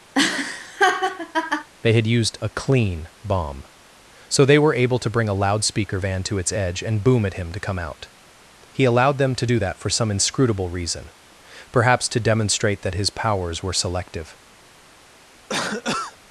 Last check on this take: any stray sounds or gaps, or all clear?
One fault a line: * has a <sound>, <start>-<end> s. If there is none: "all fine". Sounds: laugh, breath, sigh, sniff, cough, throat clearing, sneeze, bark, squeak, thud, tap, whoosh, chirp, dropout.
* has a laugh, 0.1-1.7 s
* has a cough, 15.5-16.2 s